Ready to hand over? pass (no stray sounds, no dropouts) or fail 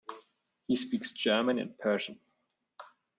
pass